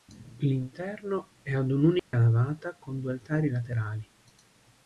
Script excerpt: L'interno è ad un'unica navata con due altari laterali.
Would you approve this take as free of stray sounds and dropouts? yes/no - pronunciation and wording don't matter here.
no